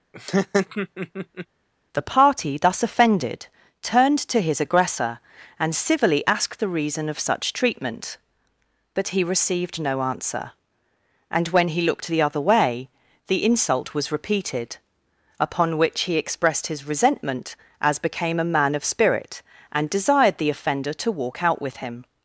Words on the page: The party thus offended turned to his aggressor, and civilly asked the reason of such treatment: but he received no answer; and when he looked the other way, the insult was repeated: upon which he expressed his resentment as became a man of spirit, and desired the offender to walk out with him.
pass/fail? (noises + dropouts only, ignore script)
fail